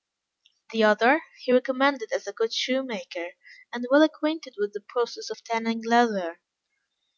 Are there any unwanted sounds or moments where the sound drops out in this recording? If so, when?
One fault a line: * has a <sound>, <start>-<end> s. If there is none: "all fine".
all fine